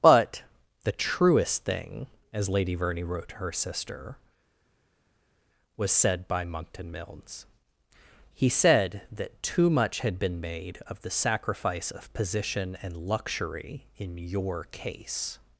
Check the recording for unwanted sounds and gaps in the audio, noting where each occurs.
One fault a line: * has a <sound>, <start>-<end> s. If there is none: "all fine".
all fine